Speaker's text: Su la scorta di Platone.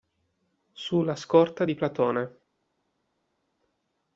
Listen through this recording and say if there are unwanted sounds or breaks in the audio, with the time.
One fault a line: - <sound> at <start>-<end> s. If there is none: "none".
none